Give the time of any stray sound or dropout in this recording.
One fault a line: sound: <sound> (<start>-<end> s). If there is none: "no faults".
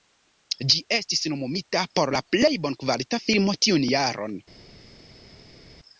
no faults